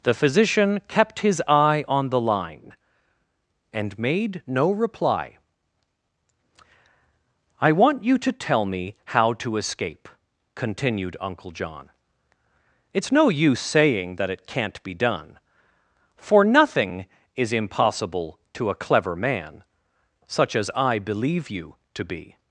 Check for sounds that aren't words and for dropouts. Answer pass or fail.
pass